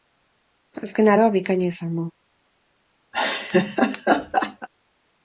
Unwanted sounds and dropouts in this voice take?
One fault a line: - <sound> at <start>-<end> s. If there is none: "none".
- laugh at 3.1-4.7 s